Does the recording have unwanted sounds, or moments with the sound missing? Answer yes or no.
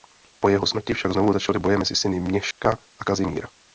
yes